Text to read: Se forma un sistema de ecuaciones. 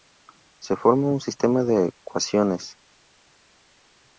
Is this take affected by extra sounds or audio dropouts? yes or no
no